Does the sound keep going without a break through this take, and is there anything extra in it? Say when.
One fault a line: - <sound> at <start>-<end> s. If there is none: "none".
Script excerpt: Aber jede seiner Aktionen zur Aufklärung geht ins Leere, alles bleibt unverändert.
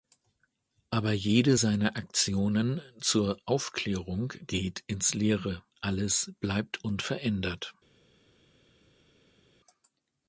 none